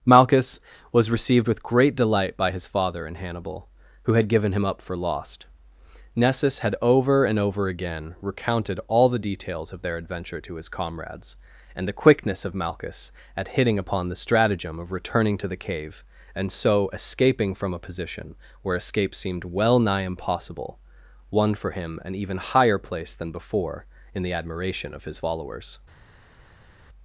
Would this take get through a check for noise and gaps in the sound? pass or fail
pass